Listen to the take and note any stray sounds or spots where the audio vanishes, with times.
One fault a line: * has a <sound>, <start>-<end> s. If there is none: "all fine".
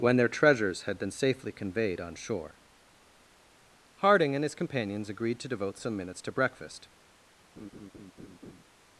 * has a laugh, 7.6-8.6 s